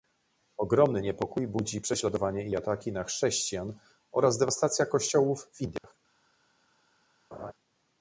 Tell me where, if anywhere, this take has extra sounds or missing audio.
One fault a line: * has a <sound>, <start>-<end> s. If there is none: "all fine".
* has a dropout, 5.8-5.8 s
* has a laugh, 7.3-7.5 s